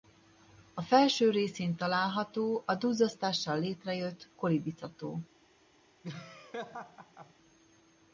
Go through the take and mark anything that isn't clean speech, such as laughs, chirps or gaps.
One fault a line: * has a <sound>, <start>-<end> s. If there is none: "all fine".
* has a laugh, 6.0-7.3 s